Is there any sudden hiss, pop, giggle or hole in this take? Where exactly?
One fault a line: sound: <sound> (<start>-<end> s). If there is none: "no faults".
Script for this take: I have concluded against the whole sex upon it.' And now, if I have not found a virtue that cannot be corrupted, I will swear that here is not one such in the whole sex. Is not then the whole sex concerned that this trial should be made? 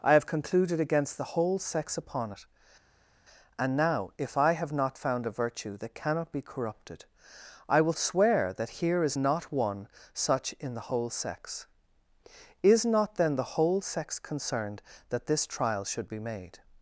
no faults